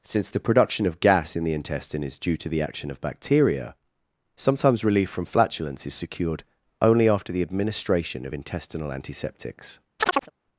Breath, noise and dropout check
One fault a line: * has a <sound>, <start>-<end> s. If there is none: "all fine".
* has a chirp, 10.0-10.3 s